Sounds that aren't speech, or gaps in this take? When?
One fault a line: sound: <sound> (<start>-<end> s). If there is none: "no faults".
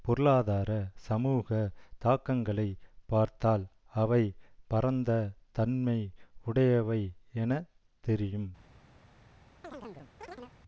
sound: chirp (9.6-10.6 s)